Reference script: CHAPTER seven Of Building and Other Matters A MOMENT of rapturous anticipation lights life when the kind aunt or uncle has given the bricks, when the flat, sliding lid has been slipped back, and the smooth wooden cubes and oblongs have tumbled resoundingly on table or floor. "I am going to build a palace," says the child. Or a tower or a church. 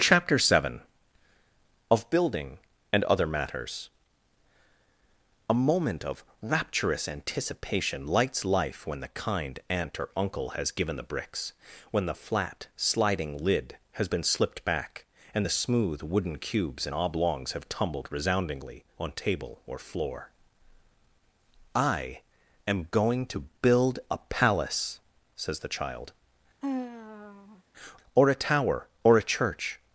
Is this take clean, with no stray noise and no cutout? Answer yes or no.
no